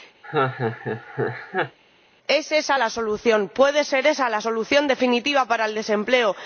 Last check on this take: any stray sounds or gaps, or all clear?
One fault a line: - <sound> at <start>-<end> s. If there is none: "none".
- laugh at 0.2-1.8 s